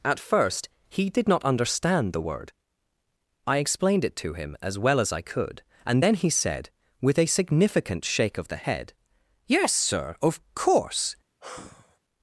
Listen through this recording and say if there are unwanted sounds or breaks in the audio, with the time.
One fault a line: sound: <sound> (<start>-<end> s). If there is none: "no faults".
sound: sigh (11.4-12.0 s)